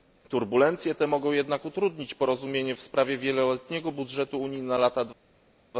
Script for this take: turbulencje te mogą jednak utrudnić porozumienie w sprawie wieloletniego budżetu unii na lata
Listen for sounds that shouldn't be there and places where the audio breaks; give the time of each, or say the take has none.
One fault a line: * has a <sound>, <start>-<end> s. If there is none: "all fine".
all fine